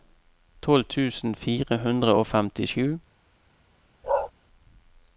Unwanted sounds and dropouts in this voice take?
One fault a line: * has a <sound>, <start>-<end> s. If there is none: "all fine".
* has a bark, 4.0-4.3 s